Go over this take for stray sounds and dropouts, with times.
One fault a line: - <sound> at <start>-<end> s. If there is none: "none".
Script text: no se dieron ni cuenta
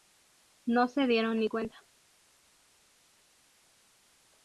none